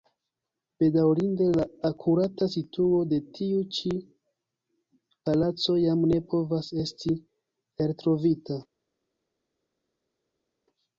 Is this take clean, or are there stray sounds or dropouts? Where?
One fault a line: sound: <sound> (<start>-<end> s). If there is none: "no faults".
no faults